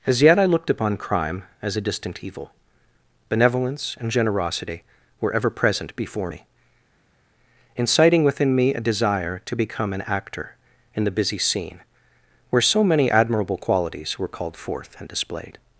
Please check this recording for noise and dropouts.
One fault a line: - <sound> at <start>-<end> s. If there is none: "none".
none